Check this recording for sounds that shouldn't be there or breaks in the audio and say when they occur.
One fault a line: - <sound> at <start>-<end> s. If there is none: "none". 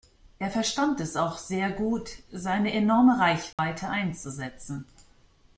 - dropout at 3.5-3.6 s